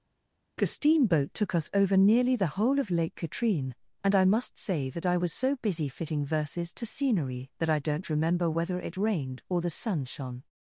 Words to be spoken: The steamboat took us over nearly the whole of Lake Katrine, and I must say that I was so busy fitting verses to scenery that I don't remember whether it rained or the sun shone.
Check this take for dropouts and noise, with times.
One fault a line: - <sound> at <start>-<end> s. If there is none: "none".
none